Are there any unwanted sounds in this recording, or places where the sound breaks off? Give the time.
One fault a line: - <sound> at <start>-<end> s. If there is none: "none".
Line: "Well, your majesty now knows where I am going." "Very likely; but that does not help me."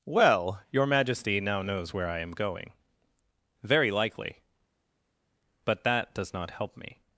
none